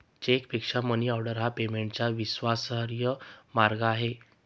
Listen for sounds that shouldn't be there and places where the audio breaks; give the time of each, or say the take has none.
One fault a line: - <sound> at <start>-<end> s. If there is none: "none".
none